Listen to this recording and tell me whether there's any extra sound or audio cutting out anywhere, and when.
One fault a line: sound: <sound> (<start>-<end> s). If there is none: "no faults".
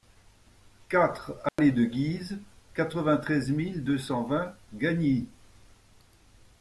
sound: dropout (1.5-1.6 s)